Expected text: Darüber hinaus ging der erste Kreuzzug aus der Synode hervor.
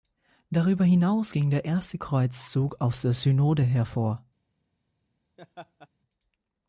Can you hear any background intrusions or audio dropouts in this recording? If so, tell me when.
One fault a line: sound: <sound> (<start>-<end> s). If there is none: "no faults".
sound: laugh (5.4-5.9 s)